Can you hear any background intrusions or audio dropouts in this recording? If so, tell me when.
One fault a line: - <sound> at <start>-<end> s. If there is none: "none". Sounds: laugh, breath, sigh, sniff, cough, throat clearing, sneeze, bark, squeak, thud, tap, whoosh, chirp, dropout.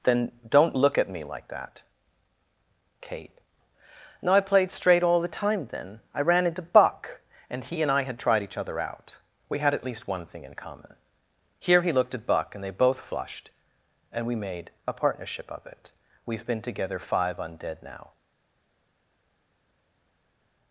none